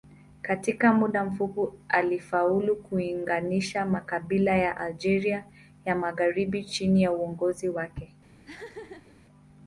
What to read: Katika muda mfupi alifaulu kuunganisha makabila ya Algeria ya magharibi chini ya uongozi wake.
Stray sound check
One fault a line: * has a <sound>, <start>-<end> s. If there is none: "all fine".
* has a laugh, 8.4-9.2 s